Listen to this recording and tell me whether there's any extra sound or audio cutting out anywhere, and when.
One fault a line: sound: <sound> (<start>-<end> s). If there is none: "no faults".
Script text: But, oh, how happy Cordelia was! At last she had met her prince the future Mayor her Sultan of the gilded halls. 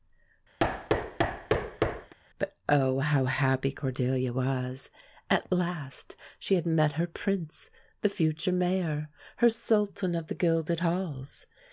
sound: thud (0.6-2.1 s)